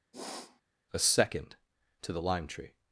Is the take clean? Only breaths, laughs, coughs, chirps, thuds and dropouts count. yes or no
no